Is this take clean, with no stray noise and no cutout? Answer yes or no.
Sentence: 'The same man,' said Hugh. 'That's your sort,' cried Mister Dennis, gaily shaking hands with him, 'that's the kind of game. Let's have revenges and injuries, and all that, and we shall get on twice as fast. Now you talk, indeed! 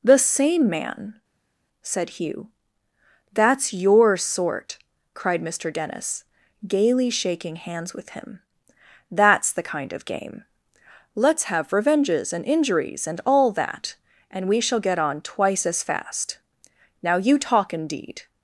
yes